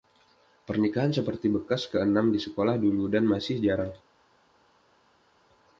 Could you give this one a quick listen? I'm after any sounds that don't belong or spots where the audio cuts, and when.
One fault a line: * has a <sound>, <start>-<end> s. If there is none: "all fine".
all fine